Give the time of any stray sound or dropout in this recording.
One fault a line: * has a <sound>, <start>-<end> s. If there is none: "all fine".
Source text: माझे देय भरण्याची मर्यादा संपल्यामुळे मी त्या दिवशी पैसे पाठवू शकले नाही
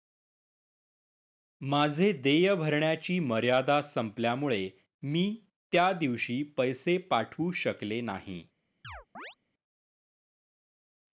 * has a chirp, 8.8-9.4 s